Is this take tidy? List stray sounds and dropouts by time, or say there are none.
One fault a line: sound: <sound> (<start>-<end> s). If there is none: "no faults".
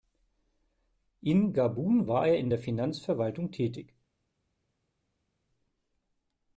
no faults